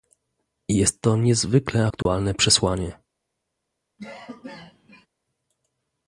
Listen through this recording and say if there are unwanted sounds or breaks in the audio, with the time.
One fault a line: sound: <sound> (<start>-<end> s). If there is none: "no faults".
sound: dropout (2.0-2.1 s)
sound: cough (4.0-5.1 s)